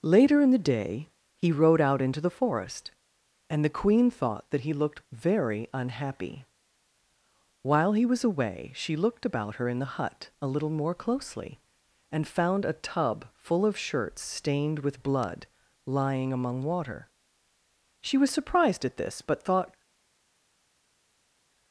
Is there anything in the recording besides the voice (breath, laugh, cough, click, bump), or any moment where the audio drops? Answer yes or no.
no